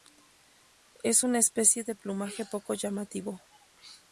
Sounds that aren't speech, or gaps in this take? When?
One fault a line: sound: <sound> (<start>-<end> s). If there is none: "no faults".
no faults